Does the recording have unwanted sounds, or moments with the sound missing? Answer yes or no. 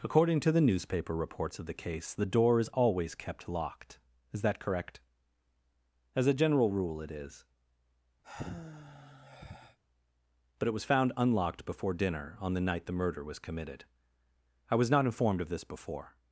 yes